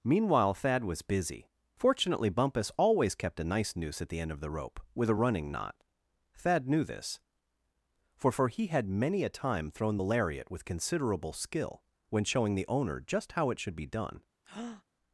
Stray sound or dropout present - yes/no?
yes